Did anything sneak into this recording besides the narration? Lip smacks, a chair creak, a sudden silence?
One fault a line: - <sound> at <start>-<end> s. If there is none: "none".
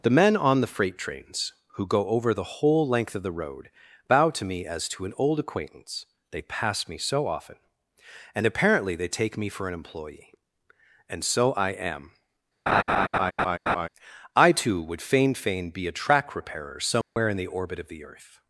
- laugh at 12.7-13.9 s
- dropout at 17.0-17.2 s